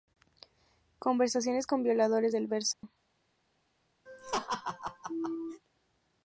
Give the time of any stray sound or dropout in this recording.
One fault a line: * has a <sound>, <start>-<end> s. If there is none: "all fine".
* has a dropout, 2.7-2.8 s
* has a laugh, 4.1-5.6 s